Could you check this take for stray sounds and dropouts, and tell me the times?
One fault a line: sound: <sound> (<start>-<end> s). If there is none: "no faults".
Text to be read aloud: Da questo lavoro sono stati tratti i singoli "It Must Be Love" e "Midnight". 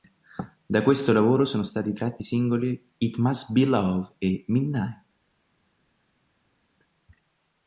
no faults